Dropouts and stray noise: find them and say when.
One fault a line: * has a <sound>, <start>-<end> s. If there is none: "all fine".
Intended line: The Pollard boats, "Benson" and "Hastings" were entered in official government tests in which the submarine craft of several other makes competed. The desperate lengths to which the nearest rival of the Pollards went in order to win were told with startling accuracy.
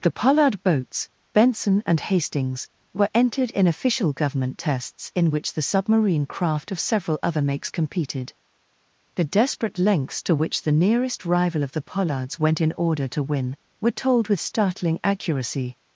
all fine